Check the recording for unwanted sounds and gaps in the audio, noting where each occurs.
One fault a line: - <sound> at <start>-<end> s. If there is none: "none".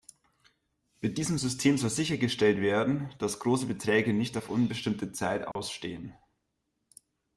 - dropout at 5.5-5.6 s